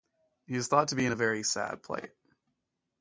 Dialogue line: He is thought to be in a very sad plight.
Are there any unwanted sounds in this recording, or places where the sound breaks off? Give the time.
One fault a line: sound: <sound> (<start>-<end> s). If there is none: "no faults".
no faults